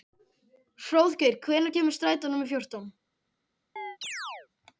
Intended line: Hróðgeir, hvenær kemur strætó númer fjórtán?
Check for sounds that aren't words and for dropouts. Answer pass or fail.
fail